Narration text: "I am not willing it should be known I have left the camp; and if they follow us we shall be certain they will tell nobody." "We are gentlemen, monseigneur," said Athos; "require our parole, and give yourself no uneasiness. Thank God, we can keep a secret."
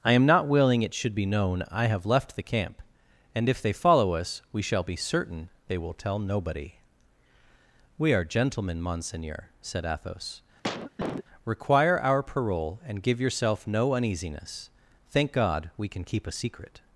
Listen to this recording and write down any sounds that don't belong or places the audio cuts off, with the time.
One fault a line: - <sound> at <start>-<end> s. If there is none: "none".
- cough at 10.6-11.2 s